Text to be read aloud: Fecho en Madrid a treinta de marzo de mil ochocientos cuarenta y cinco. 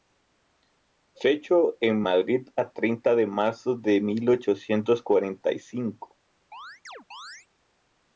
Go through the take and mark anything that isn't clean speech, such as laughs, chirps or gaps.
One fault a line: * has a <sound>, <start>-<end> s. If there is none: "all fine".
* has a chirp, 6.5-7.5 s